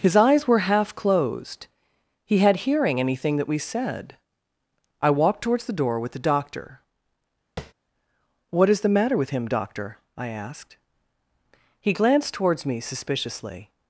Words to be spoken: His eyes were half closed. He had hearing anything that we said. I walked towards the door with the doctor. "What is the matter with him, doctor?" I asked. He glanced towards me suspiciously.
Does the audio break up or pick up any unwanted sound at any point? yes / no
yes